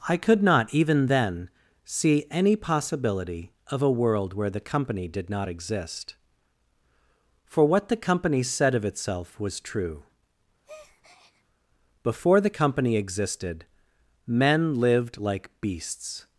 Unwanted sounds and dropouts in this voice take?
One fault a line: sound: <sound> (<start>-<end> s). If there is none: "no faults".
sound: breath (10.6-11.4 s)